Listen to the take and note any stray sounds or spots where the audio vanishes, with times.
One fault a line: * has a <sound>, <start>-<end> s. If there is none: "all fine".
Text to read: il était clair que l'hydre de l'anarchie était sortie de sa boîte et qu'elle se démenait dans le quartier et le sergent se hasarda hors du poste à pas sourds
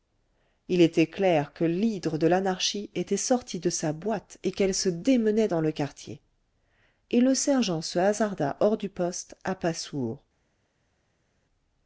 all fine